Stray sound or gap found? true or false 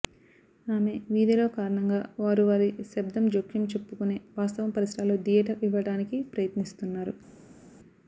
false